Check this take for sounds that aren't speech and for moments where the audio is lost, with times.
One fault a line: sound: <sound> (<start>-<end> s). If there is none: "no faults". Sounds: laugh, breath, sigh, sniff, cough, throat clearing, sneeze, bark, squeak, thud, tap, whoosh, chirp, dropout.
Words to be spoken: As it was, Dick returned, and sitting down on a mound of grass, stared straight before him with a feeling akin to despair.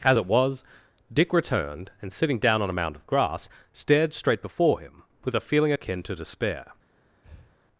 sound: breath (7.2-7.6 s)